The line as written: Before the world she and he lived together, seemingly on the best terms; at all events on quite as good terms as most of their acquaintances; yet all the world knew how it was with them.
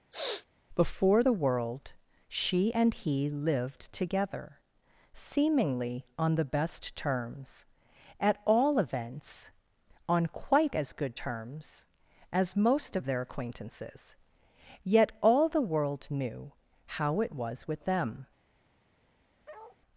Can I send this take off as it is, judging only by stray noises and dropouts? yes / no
no